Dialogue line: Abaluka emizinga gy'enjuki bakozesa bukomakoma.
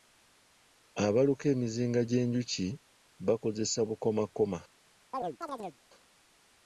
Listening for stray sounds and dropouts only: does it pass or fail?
fail